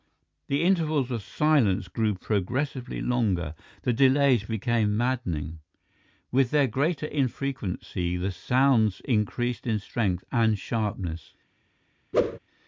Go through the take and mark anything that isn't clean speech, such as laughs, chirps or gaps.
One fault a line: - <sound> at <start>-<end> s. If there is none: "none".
- whoosh at 12.1-12.4 s